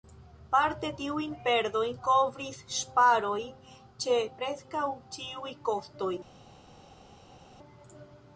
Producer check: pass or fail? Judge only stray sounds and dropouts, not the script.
pass